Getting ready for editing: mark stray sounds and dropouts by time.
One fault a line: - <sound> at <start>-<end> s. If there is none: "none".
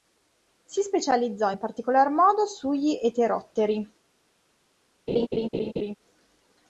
- laugh at 5.1-5.9 s